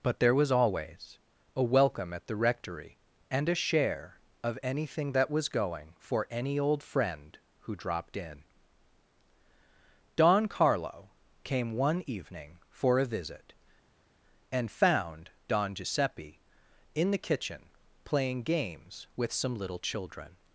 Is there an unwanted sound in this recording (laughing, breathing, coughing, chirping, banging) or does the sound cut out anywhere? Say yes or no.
no